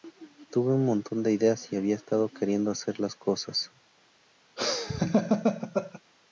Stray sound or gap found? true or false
true